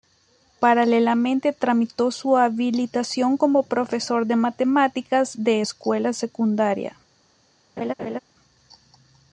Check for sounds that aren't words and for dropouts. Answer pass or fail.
fail